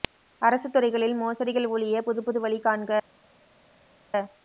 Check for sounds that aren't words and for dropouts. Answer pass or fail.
pass